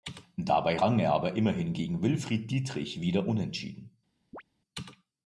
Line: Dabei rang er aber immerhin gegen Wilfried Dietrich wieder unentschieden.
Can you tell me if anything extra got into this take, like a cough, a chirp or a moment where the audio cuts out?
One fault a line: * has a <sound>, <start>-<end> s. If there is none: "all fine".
* has a chirp, 4.3-4.4 s